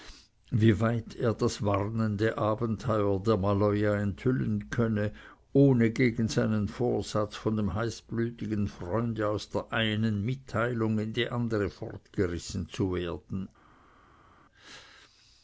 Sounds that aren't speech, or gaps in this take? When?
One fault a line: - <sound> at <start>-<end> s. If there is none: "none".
none